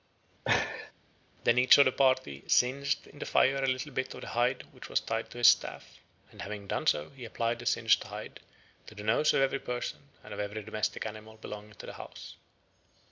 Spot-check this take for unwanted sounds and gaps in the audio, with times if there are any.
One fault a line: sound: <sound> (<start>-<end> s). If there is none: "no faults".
sound: laugh (0.5-0.9 s)